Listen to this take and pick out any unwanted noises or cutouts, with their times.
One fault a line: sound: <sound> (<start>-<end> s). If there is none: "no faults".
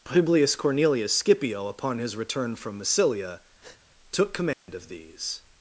sound: breath (3.6-3.8 s)
sound: dropout (4.5-4.7 s)